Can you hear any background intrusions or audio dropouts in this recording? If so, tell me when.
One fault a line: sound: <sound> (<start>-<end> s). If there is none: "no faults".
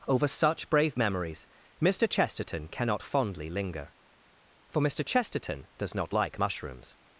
no faults